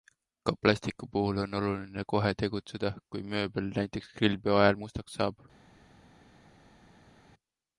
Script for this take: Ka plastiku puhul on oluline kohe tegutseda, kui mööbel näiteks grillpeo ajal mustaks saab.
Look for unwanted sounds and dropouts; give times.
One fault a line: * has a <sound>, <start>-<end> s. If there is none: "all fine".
all fine